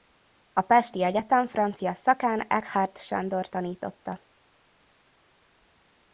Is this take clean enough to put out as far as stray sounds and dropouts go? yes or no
yes